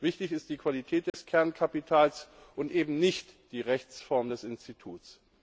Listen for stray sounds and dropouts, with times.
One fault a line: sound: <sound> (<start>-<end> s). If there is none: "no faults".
sound: dropout (1.1-1.1 s)